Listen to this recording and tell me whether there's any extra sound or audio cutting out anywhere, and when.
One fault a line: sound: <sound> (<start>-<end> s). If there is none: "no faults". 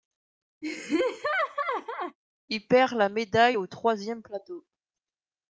sound: laugh (0.6-2.2 s)